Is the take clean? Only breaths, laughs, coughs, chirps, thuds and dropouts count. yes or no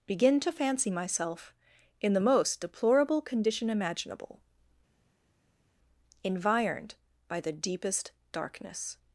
yes